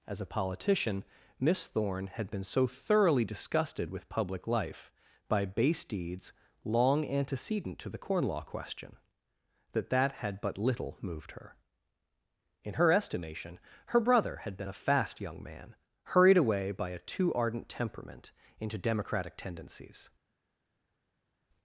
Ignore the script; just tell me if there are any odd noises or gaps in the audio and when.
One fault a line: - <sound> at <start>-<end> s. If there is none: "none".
none